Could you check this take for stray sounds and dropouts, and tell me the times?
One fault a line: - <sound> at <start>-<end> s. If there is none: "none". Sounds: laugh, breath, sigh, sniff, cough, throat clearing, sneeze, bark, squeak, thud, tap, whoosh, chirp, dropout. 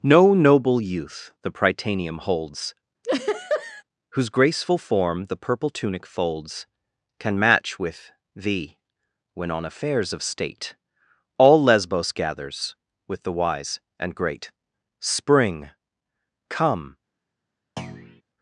- laugh at 3.0-3.8 s
- thud at 17.8-18.2 s